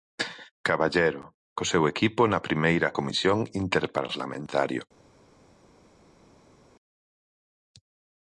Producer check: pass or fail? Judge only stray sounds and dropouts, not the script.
pass